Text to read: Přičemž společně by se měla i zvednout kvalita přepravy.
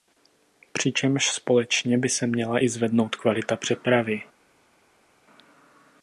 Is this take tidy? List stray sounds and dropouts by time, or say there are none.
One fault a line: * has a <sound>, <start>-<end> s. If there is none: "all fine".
all fine